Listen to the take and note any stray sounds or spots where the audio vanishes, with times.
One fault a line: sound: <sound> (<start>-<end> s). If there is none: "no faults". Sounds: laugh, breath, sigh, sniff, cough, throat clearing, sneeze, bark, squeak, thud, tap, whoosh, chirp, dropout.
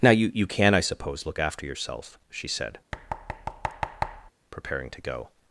sound: thud (2.9-4.3 s)